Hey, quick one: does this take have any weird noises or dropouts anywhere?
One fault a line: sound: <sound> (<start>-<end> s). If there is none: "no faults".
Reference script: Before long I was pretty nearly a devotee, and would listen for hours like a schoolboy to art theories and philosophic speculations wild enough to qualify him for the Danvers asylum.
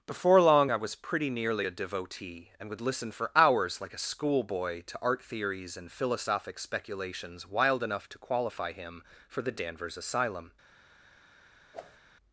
sound: whoosh (11.7-12.0 s)